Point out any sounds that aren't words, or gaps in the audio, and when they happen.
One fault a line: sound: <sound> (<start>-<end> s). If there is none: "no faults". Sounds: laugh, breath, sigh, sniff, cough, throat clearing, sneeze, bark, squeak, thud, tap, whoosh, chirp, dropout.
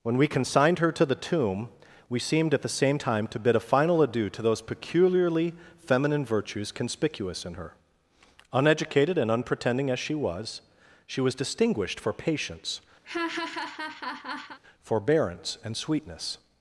sound: laugh (13.0-14.6 s)